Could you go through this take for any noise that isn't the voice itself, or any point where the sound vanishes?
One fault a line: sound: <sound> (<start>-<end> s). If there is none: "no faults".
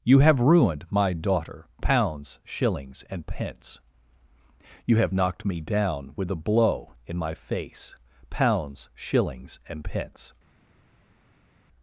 no faults